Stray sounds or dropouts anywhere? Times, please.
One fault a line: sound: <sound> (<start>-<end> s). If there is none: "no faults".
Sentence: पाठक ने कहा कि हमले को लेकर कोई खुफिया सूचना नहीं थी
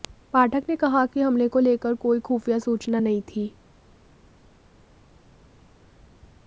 no faults